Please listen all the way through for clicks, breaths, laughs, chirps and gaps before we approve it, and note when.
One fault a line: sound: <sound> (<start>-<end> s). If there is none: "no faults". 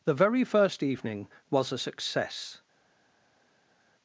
no faults